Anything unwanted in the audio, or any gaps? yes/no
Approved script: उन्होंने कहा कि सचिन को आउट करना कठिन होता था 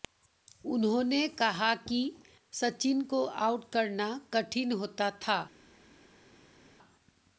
no